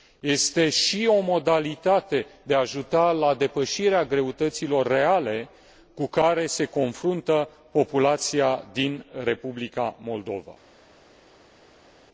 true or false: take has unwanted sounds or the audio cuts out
false